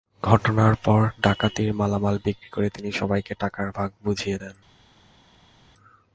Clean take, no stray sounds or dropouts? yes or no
yes